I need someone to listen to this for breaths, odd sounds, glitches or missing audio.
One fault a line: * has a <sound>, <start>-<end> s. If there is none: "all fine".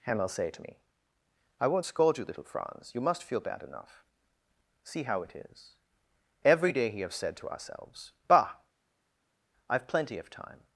all fine